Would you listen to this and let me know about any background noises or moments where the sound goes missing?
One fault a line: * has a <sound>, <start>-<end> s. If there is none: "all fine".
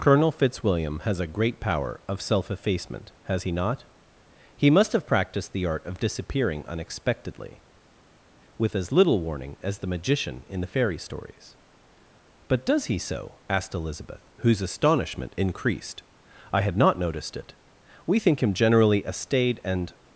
all fine